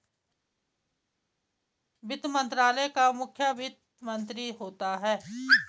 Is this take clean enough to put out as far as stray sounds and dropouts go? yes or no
yes